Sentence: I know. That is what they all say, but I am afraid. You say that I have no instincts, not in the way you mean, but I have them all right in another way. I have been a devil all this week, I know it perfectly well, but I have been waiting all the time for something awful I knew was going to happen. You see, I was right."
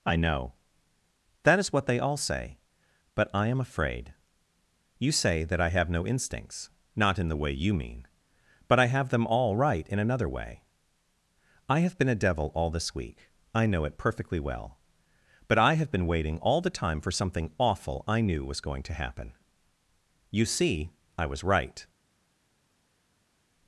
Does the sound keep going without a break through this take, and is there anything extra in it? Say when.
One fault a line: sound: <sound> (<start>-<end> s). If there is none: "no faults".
no faults